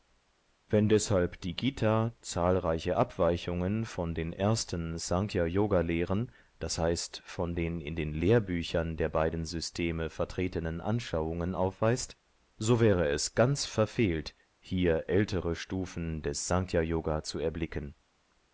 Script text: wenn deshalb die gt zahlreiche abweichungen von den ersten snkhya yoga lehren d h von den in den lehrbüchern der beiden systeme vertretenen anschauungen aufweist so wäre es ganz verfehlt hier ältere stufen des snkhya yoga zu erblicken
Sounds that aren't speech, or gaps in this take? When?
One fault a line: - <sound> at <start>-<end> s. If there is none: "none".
none